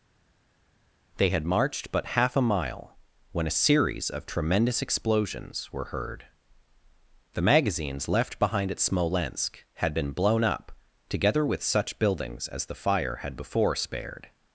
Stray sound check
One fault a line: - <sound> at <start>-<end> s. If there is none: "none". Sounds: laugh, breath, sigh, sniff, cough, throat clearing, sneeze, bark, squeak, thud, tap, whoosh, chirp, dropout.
none